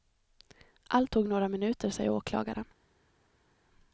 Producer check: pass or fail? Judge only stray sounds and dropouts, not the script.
pass